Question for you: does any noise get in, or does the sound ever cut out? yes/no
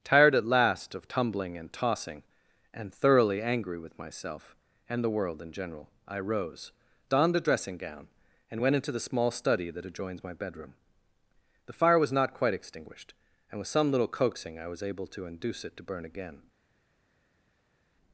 no